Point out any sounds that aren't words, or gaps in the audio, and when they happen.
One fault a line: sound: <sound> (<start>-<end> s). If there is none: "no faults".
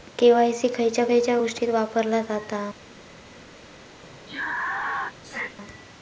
sound: sneeze (4.0-5.6 s)